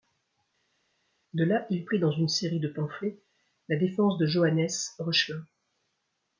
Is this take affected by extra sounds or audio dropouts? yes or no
no